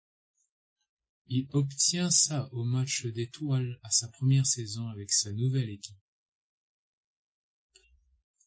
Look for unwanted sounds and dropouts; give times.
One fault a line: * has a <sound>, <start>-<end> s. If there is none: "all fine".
all fine